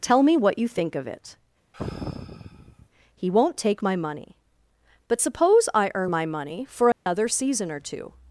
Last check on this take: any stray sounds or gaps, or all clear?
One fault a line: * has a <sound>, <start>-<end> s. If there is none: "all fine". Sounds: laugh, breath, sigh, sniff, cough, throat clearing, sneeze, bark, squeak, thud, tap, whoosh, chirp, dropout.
* has a sigh, 1.7-2.9 s
* has a dropout, 6.9-7.1 s